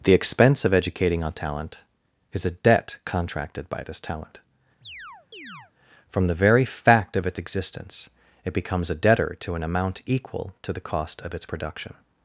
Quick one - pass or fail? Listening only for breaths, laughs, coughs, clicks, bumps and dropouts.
fail